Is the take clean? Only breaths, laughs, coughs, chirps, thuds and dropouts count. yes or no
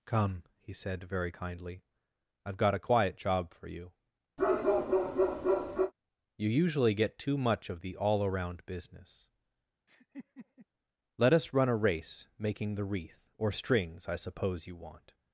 no